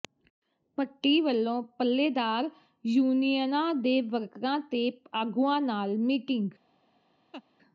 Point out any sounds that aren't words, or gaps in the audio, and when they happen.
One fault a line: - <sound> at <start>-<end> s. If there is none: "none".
- laugh at 7.3-7.4 s